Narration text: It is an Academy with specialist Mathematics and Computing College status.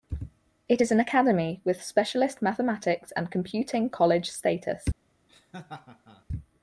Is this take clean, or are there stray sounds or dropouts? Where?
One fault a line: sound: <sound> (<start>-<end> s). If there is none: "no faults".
sound: laugh (5.3-6.2 s)